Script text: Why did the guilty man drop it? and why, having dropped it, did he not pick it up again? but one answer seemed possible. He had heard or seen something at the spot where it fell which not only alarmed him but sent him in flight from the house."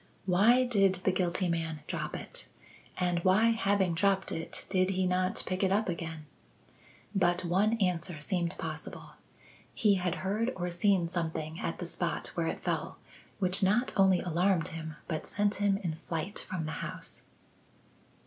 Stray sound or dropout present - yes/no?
no